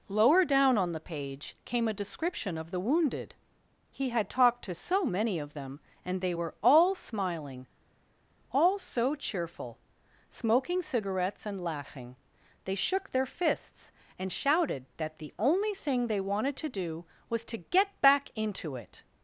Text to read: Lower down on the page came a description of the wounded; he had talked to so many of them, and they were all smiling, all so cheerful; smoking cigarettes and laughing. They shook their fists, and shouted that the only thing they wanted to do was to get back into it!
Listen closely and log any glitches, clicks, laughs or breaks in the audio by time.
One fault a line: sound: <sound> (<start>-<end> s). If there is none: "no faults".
no faults